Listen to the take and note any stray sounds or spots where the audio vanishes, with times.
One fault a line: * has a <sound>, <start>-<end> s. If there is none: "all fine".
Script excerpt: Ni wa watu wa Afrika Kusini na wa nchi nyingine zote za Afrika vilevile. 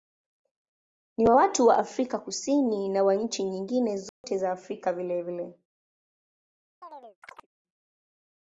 * has a dropout, 4.1-4.2 s
* has a chirp, 6.8-7.5 s